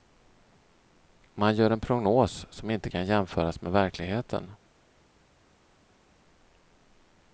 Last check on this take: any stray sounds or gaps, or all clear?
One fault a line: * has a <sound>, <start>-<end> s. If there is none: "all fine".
all fine